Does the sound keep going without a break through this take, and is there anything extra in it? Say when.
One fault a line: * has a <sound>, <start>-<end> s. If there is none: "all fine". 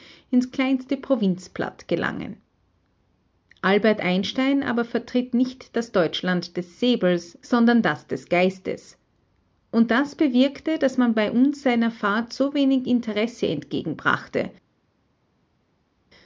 all fine